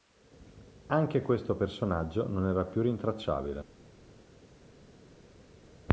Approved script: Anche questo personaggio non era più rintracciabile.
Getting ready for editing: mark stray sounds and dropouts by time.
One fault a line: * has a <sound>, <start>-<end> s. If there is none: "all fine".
all fine